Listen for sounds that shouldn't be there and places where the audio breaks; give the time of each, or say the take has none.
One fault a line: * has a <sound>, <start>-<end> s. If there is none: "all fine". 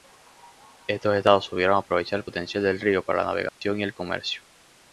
* has a dropout, 3.5-3.6 s